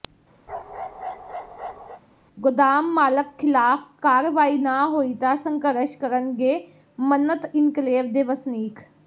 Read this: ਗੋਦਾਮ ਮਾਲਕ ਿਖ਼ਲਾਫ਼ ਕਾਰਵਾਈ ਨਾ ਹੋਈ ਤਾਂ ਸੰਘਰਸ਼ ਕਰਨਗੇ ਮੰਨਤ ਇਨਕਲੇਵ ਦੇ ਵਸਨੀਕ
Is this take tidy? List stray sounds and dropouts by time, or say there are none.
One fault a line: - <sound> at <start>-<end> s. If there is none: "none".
- bark at 0.5-2.0 s